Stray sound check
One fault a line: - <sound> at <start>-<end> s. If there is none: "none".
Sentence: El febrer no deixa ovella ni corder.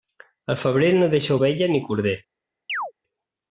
- chirp at 2.7-2.9 s